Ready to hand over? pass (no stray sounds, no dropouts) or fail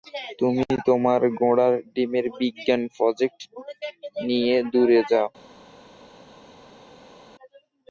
pass